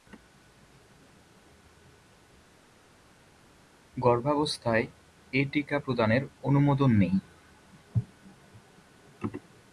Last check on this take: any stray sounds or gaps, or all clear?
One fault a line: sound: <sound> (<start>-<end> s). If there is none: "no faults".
no faults